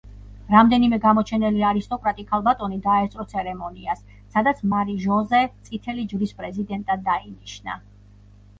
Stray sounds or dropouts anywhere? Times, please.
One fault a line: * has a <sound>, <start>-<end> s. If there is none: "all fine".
all fine